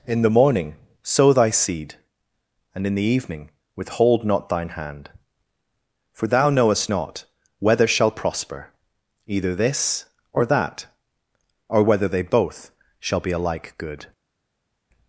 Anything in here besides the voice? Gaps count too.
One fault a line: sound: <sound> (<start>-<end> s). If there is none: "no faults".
no faults